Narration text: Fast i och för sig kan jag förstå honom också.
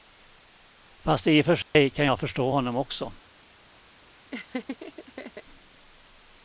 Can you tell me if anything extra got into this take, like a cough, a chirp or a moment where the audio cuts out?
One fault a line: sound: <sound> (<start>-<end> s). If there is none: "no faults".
sound: dropout (1.6-1.7 s)
sound: laugh (4.3-5.4 s)